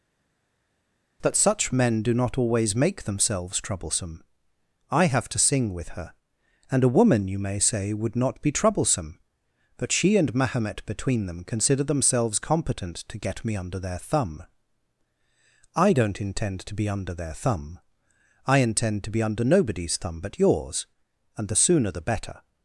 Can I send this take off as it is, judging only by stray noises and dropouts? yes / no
yes